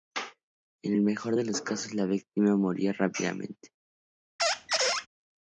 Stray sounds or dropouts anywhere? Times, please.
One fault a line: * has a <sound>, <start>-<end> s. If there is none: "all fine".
* has a squeak, 4.4-5.1 s